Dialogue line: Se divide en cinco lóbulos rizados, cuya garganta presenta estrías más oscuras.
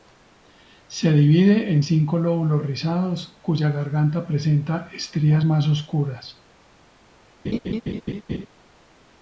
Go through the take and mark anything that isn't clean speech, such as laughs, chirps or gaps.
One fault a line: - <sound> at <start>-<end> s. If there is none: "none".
- laugh at 7.4-8.5 s